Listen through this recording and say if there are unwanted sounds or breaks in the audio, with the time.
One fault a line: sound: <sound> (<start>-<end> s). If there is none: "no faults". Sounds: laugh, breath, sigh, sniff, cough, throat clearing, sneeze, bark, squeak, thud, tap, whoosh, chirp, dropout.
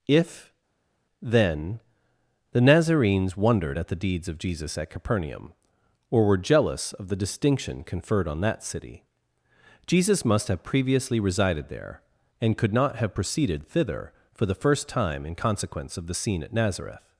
no faults